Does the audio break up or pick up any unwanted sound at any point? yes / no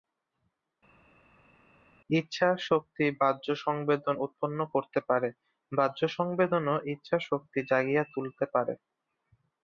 no